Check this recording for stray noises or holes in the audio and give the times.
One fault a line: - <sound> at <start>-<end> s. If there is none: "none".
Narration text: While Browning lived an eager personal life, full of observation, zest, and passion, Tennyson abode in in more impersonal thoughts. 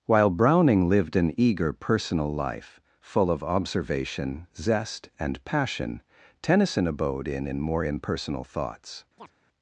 - chirp at 9.2-9.3 s